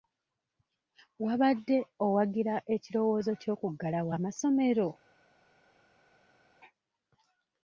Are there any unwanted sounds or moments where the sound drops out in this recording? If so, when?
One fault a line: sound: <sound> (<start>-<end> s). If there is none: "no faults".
no faults